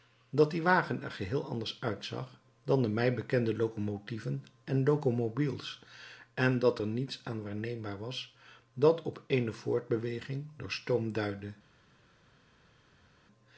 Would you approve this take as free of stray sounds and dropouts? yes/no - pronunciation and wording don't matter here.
yes